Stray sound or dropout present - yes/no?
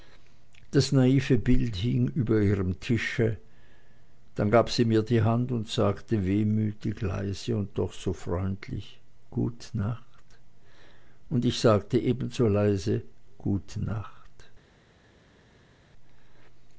no